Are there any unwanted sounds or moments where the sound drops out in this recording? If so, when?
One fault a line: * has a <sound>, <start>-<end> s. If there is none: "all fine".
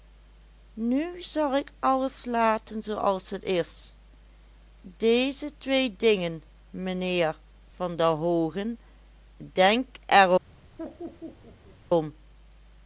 * has a laugh, 10.8-11.8 s